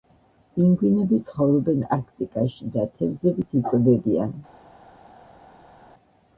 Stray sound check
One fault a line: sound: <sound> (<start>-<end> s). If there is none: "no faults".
no faults